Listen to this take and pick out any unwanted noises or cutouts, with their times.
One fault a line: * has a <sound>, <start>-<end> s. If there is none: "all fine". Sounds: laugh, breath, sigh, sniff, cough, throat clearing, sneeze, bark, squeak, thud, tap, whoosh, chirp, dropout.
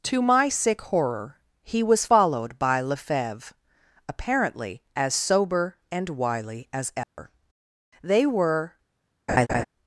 * has a dropout, 7.0-7.2 s
* has a laugh, 9.3-9.6 s